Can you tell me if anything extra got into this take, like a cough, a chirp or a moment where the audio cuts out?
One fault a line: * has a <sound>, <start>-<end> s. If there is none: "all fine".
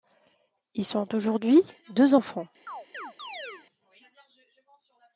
* has a chirp, 2.7-3.7 s